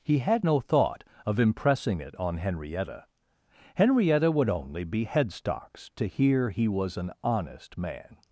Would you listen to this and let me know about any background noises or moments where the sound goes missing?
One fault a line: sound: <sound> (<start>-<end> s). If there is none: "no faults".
no faults